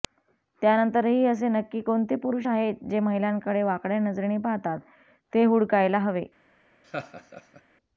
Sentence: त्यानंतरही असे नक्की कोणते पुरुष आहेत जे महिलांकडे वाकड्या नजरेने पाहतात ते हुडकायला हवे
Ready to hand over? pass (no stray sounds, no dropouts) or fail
fail